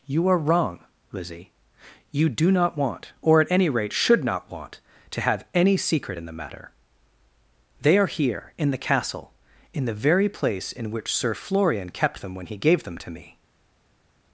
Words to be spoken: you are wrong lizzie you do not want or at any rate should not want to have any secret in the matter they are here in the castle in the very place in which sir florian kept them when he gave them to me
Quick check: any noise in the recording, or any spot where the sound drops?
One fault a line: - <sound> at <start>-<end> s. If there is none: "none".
none